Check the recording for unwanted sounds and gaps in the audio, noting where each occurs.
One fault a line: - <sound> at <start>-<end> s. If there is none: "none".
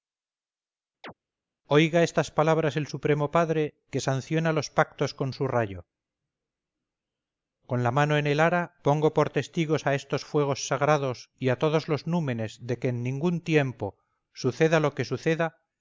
- chirp at 1.0-1.1 s